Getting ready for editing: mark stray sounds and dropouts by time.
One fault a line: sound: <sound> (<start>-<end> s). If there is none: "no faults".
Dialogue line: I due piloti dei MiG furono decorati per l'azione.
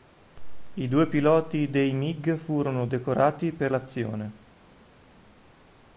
no faults